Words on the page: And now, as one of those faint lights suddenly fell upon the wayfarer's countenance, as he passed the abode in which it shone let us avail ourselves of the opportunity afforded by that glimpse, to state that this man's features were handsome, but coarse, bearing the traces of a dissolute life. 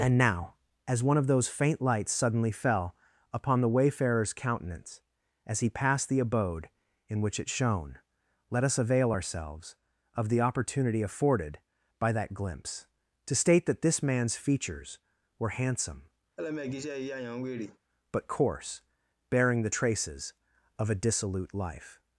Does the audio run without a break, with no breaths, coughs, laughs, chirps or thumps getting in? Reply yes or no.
no